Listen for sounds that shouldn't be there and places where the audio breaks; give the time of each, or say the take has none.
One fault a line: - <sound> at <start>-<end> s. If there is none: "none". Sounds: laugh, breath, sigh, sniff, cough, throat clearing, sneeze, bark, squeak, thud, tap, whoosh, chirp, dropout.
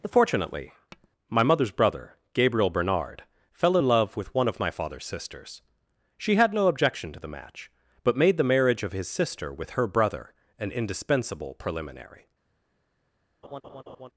- tap at 0.9-1.1 s
- laugh at 13.4-14.1 s